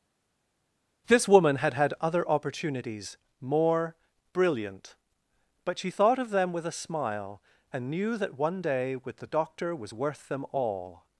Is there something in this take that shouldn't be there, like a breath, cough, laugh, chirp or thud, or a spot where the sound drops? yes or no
no